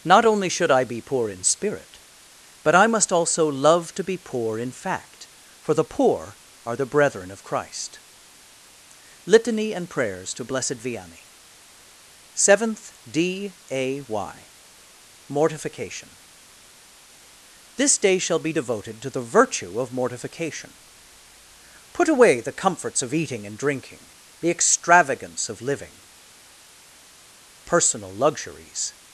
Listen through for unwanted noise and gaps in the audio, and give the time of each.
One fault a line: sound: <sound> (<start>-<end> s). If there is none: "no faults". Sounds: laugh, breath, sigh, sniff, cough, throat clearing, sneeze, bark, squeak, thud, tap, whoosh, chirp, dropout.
no faults